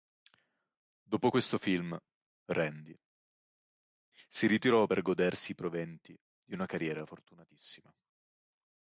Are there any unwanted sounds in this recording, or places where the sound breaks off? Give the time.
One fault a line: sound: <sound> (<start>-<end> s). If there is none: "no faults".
no faults